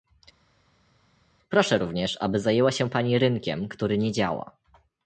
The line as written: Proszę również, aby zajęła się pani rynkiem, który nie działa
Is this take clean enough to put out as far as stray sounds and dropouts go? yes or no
yes